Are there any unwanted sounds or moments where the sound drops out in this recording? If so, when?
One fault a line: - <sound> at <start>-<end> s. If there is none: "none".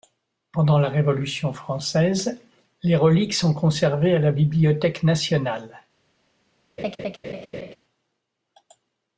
- laugh at 6.8-7.8 s